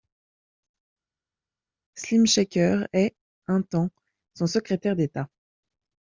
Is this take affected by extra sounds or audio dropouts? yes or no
no